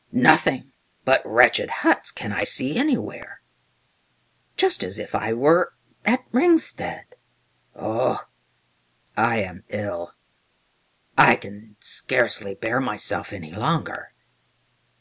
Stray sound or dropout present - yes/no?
no